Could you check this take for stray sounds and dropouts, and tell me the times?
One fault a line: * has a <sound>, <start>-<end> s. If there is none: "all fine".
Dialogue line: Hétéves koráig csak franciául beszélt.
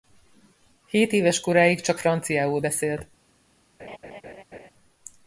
* has a laugh, 3.8-4.7 s